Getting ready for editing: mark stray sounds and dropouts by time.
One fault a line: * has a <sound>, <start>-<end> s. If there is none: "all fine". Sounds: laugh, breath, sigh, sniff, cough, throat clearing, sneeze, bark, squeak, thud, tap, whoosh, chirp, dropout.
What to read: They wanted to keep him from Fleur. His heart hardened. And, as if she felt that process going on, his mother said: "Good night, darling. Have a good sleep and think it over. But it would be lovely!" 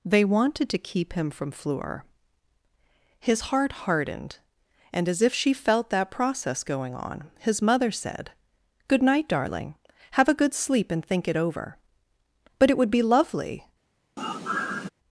* has a sigh, 14.2-14.9 s